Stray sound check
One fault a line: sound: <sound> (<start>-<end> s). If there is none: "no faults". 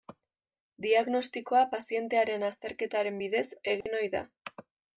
sound: dropout (3.8-3.9 s)